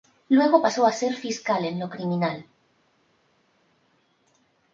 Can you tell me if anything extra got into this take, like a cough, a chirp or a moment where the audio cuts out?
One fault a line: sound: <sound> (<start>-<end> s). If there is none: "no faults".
no faults